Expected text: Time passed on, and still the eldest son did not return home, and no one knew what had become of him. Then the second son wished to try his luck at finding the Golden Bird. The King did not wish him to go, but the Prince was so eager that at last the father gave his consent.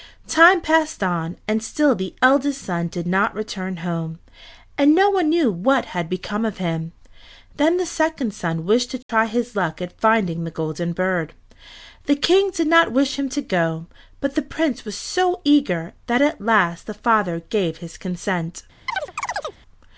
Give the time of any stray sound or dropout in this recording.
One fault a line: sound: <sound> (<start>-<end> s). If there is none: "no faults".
sound: dropout (9.0-9.1 s)
sound: chirp (18.9-19.6 s)